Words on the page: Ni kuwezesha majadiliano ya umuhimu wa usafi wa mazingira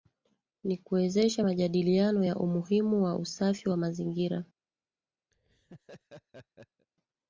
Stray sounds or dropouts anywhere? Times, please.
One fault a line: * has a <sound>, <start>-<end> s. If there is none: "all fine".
* has a laugh, 5.3-6.9 s